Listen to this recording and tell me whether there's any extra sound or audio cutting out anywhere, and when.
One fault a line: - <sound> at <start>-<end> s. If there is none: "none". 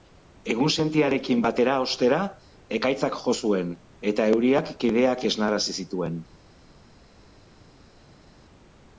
none